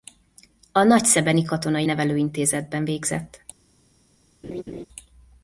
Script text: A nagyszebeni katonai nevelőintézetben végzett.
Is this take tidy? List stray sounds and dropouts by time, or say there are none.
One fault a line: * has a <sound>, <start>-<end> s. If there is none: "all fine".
* has a laugh, 4.4-4.9 s